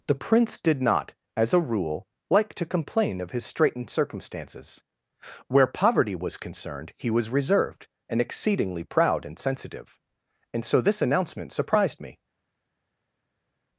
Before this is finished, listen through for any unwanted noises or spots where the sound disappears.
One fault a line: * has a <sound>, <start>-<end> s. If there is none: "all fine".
all fine